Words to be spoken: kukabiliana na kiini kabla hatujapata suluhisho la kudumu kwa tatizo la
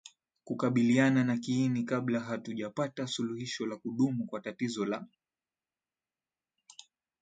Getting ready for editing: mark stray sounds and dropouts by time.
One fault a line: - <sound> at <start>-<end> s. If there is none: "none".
none